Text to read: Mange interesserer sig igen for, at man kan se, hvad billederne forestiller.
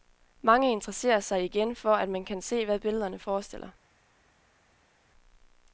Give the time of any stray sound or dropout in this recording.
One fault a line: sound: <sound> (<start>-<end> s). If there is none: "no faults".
no faults